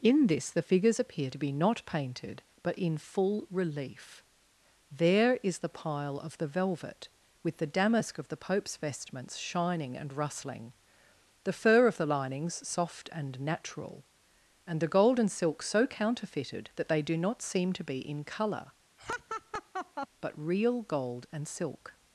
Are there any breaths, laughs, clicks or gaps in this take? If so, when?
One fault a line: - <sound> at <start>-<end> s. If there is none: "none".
- laugh at 19.0-20.1 s